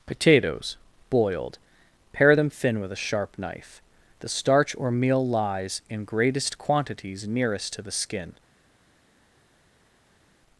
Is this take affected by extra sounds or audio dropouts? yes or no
no